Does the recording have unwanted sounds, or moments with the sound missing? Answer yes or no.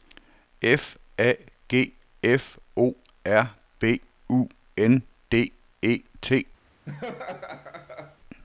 yes